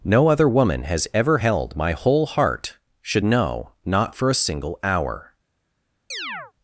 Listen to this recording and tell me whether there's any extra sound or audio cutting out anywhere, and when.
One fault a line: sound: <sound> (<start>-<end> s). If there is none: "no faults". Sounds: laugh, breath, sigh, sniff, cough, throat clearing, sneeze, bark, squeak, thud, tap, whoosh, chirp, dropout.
sound: chirp (6.1-6.5 s)